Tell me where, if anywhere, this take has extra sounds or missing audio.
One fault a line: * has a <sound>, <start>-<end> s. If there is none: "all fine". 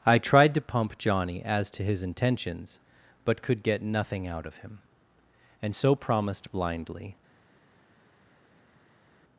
all fine